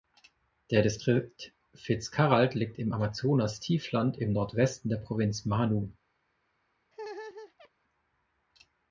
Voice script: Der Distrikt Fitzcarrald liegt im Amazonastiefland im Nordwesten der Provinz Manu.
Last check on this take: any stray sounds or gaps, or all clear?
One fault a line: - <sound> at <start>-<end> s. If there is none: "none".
- laugh at 6.9-7.7 s